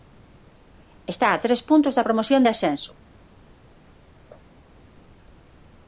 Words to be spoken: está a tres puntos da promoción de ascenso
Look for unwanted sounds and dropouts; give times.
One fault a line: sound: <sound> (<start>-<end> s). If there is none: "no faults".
no faults